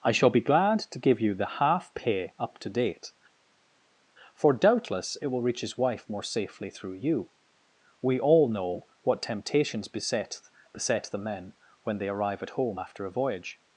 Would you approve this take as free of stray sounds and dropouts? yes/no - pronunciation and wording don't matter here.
yes